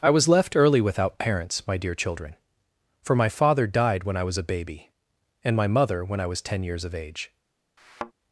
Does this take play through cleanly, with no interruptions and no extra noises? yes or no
no